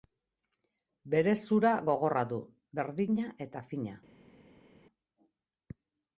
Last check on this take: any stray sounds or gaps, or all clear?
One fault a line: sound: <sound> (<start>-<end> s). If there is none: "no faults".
no faults